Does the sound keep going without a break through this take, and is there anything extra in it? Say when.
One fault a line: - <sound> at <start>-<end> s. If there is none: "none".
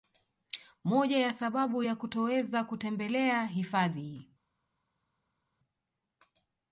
none